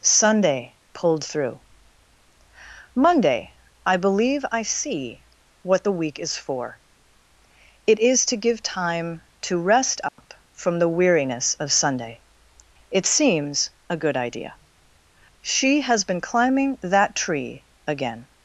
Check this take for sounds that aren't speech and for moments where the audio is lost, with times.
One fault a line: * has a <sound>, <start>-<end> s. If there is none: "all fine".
* has a dropout, 10.1-10.2 s